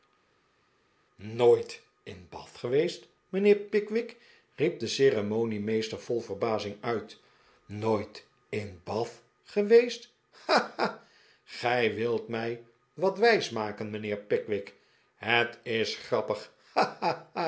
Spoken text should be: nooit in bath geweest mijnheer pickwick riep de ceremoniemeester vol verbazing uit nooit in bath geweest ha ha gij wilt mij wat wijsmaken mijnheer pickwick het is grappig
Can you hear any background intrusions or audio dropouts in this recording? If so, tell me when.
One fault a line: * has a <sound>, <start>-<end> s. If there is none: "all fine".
all fine